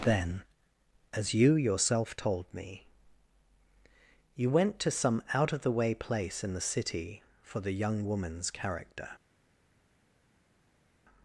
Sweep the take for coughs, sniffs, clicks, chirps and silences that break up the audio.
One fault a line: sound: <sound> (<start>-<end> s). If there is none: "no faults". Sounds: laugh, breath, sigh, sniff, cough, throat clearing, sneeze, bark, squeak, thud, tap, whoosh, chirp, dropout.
no faults